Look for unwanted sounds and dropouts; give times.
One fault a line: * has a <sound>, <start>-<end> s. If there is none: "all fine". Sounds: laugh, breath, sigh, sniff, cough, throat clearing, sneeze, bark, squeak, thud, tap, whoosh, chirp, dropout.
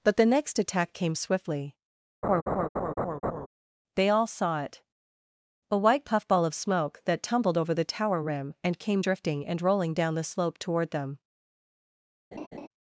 * has a laugh, 2.2-3.5 s
* has a laugh, 12.3-12.7 s